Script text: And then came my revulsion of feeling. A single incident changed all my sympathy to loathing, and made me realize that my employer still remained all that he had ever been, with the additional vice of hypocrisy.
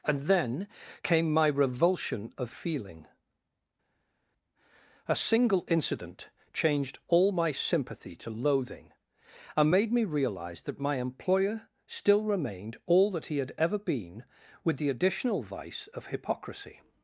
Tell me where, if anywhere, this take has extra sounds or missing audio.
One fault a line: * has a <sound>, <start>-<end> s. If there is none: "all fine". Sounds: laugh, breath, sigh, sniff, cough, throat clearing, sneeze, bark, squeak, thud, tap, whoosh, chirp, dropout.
all fine